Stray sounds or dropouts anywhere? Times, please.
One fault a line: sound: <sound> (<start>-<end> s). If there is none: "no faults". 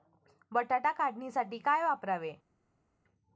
no faults